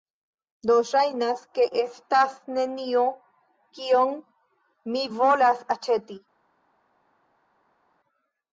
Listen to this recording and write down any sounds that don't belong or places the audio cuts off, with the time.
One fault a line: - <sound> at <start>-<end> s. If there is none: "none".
none